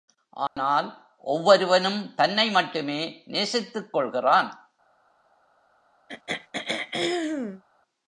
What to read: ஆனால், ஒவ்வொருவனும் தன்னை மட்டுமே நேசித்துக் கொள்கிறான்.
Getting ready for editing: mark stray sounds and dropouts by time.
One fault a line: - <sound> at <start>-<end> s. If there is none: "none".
- dropout at 0.5-0.6 s
- throat clearing at 6.1-7.6 s